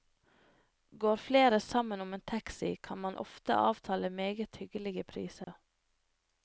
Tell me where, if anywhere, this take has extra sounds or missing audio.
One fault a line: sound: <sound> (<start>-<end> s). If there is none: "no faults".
sound: dropout (5.4-5.5 s)